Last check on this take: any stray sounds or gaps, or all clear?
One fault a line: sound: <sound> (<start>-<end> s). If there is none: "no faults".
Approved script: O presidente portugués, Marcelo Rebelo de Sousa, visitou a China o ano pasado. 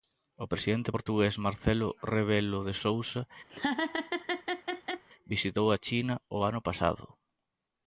sound: laugh (3.5-5.0 s)